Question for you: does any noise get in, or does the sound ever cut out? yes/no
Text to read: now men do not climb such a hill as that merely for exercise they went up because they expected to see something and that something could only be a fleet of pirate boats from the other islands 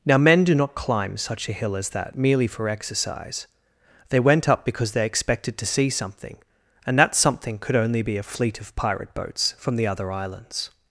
no